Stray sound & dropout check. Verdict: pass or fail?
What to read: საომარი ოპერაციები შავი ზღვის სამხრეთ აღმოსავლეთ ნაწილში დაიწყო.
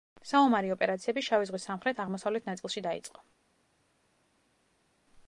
pass